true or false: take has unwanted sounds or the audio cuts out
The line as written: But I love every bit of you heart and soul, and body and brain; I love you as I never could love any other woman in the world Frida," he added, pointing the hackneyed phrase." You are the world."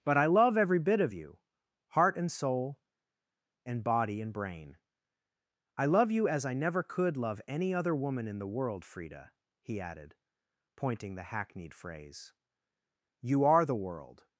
false